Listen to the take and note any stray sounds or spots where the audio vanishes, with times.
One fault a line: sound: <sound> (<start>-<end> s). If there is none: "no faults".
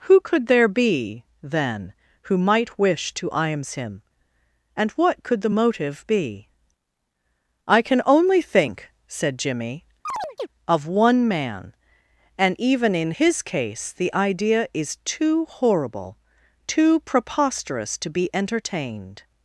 sound: chirp (10.1-10.5 s)